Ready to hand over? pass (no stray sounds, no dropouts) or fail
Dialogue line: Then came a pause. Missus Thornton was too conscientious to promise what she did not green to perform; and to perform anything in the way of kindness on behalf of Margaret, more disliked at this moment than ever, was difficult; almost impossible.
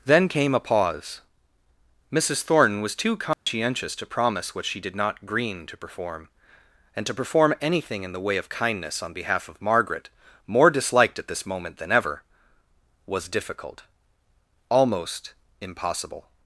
fail